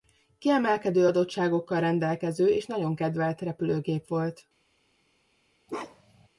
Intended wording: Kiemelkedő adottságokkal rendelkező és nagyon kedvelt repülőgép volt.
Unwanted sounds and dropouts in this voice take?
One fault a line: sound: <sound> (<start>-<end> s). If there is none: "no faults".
sound: bark (5.7-6.3 s)